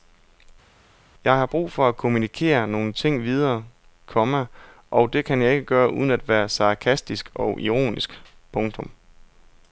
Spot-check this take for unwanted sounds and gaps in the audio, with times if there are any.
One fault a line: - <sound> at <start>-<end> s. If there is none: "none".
none